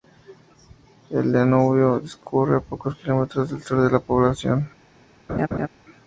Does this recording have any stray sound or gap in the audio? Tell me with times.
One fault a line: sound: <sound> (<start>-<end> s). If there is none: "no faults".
sound: laugh (5.3-5.7 s)